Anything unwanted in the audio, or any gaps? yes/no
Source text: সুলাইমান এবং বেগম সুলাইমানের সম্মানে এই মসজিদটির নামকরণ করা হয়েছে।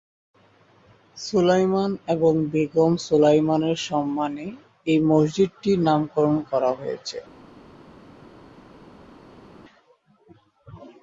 no